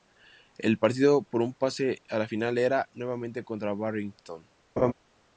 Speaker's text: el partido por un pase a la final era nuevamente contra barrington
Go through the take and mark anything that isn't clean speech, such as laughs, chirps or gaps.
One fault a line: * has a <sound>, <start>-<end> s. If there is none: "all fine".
* has a laugh, 4.8-4.9 s